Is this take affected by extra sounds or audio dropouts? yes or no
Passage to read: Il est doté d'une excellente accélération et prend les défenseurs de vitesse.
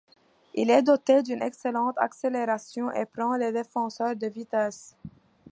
no